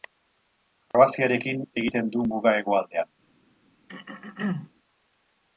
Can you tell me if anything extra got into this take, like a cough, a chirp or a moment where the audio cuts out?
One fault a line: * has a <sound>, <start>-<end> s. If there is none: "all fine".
* has a dropout, 0.9-0.9 s
* has a throat clearing, 3.9-4.7 s